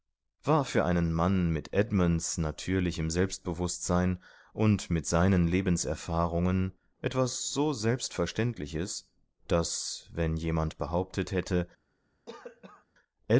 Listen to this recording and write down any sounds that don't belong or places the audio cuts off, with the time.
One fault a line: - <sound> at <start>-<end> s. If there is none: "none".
- cough at 12.3-12.9 s